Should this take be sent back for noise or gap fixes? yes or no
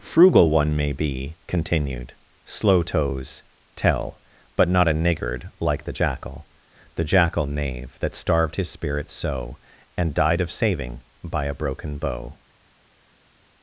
no